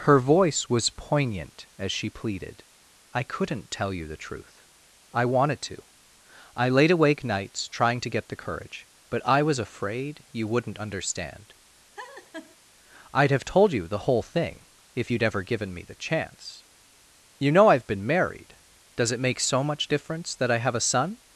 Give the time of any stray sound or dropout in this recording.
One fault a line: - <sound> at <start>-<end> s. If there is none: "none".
- laugh at 12.0-12.6 s